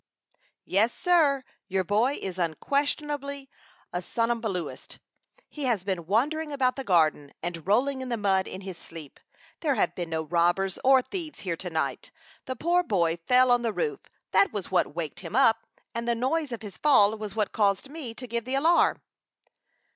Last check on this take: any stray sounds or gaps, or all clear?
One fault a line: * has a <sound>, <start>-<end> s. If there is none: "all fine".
all fine